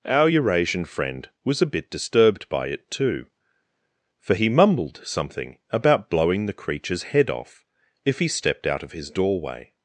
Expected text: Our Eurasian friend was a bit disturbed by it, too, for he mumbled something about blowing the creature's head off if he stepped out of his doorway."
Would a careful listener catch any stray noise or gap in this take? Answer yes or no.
no